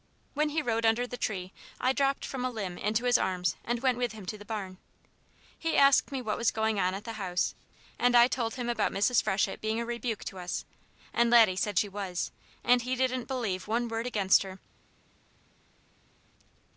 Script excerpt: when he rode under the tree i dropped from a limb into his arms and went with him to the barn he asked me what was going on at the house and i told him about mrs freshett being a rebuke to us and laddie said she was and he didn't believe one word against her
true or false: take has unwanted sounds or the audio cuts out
false